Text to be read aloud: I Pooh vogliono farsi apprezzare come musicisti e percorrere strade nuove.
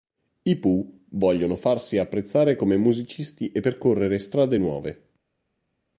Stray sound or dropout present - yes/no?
no